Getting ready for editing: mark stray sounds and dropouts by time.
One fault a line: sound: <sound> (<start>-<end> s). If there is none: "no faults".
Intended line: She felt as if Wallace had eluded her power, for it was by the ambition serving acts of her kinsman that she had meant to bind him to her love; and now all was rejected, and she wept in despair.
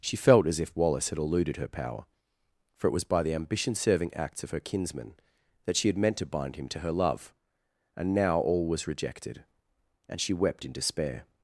no faults